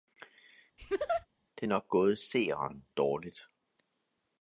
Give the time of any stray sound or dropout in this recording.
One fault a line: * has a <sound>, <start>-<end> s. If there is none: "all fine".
* has a laugh, 0.8-1.3 s